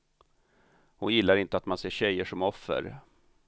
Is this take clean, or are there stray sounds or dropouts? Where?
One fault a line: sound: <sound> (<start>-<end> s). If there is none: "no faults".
no faults